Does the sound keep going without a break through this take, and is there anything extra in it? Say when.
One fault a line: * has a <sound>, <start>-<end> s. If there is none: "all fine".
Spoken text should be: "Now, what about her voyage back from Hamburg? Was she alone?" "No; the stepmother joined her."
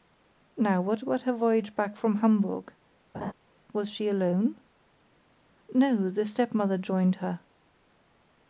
* has a laugh, 3.1-3.3 s